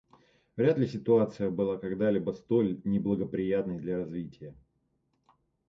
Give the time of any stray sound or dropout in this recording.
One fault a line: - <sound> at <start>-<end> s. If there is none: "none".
none